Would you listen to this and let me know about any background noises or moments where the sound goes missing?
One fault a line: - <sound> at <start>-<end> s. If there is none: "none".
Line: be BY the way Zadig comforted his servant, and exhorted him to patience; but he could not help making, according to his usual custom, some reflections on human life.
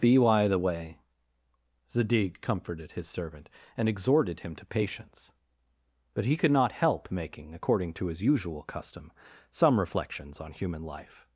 none